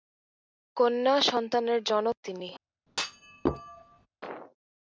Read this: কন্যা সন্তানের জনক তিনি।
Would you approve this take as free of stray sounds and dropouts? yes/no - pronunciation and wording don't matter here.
no